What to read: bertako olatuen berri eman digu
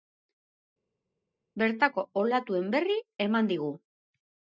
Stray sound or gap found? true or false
false